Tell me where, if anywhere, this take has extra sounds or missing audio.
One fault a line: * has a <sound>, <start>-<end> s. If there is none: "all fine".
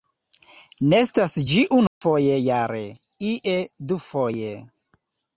* has a dropout, 1.9-2.0 s